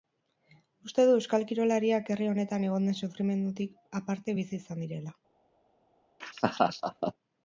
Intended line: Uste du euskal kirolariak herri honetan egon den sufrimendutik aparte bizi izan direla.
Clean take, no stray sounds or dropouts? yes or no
no